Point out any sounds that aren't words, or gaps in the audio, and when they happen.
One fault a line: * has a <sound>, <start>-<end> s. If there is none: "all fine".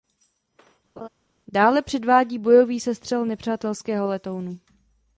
* has a laugh, 1.0-1.1 s